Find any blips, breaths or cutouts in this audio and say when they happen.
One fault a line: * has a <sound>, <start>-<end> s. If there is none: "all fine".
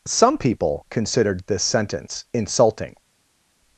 all fine